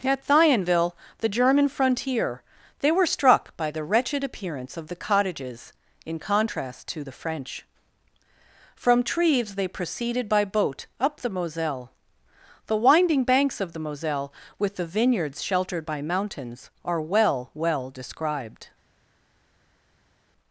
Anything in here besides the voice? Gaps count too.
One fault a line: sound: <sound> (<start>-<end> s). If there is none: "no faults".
no faults